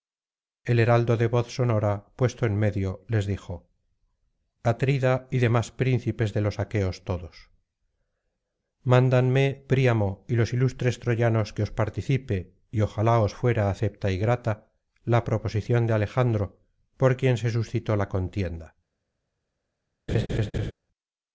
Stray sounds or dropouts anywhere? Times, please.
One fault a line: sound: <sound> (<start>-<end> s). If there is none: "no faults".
sound: laugh (20.1-20.7 s)